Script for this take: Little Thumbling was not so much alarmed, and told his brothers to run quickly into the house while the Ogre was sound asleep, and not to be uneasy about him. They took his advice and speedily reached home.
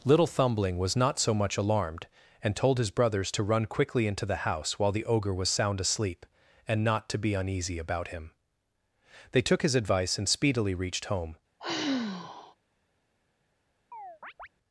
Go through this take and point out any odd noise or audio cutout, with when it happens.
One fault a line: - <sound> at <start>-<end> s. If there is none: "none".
- sigh at 11.6-12.5 s
- chirp at 13.9-14.5 s